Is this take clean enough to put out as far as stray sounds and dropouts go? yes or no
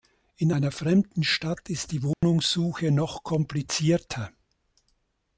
no